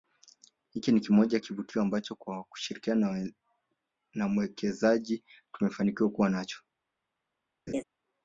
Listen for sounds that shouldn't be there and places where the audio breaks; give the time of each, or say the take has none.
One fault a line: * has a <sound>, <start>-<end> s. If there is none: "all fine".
* has a laugh, 7.7-7.8 s